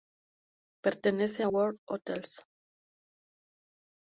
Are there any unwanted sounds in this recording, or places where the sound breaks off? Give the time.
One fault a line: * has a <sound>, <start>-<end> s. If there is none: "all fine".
all fine